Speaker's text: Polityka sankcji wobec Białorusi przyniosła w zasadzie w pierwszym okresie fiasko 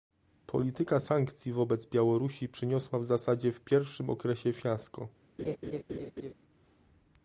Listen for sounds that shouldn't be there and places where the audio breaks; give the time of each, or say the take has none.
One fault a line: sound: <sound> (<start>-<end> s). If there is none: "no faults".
sound: laugh (5.4-6.3 s)